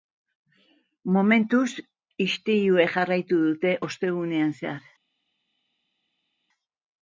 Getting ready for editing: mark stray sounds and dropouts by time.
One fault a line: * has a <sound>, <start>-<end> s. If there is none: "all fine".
all fine